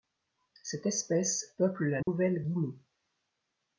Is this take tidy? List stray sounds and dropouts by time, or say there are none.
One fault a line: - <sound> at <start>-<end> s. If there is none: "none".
- dropout at 2.0-2.1 s